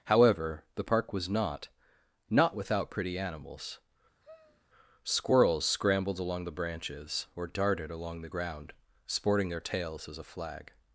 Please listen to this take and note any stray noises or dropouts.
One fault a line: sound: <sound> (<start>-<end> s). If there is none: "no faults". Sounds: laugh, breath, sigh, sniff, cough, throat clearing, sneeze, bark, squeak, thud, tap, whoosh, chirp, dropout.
sound: sigh (4.2-4.7 s)